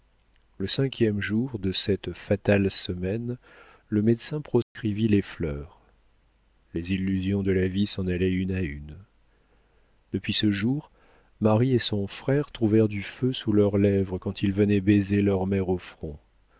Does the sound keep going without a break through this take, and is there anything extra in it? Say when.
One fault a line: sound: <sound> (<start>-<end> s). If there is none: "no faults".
sound: dropout (4.6-4.8 s)